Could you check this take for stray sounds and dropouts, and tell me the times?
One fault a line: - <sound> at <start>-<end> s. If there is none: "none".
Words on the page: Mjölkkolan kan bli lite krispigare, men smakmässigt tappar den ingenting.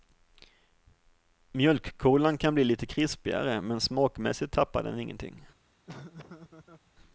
- laugh at 5.9-6.9 s